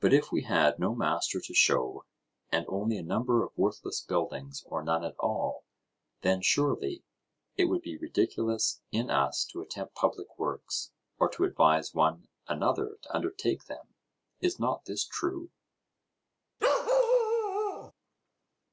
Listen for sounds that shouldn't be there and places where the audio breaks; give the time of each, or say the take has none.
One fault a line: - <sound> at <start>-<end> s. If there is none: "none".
- bark at 16.6-17.9 s